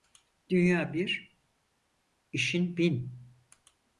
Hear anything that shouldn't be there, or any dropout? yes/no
no